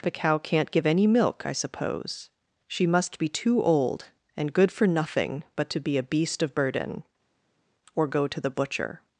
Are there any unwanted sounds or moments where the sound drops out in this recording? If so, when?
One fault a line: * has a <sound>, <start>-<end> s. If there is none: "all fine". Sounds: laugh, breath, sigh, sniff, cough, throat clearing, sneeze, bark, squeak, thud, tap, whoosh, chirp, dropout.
all fine